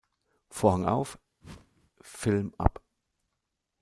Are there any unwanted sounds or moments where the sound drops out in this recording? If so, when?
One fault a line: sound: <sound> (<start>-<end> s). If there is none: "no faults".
sound: whoosh (1.4-1.9 s)